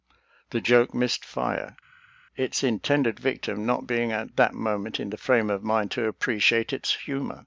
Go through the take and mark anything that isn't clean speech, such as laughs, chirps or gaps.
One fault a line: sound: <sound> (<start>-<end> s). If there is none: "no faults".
no faults